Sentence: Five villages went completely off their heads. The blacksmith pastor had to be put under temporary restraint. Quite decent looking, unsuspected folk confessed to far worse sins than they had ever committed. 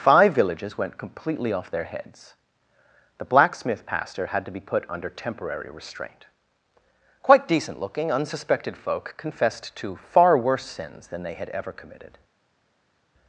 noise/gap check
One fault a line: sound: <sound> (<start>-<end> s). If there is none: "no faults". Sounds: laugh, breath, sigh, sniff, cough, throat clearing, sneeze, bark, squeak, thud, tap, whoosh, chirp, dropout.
no faults